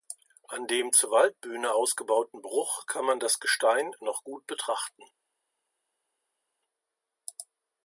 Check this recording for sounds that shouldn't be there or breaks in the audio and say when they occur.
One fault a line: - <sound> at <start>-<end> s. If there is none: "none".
none